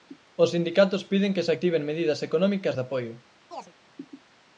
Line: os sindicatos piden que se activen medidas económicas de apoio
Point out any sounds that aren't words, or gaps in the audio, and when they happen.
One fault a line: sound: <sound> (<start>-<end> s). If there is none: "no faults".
sound: chirp (3.5-3.7 s)